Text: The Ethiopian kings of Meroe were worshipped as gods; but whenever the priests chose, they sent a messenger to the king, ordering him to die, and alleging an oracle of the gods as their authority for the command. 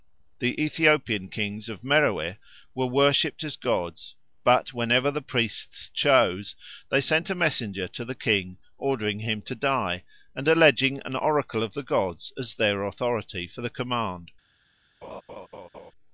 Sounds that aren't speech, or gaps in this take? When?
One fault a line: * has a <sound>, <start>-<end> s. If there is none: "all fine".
* has a laugh, 15.0-15.9 s